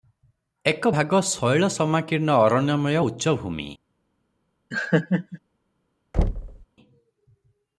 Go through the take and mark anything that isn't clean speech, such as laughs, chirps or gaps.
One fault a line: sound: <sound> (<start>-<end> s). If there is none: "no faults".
sound: laugh (4.7-5.4 s)
sound: thud (6.1-6.7 s)